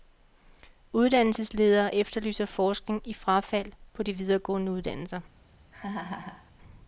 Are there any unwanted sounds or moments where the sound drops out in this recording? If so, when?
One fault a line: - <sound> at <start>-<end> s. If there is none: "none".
- laugh at 5.7-6.5 s